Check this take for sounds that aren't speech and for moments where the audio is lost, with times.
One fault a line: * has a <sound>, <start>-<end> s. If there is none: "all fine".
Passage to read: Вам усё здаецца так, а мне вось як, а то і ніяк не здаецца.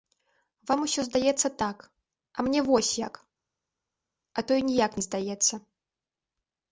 all fine